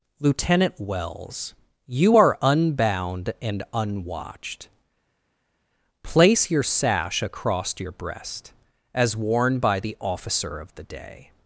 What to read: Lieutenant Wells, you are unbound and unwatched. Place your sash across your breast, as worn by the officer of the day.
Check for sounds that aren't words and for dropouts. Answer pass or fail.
pass